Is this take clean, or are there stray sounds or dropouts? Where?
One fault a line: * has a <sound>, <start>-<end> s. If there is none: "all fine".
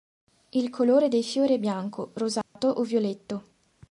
* has a dropout, 2.4-2.6 s